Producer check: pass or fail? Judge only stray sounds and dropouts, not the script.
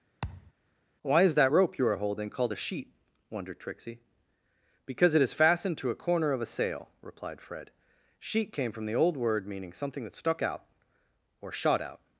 fail